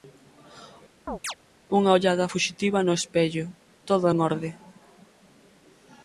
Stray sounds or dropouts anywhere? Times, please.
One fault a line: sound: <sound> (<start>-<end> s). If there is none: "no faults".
sound: chirp (1.1-1.3 s)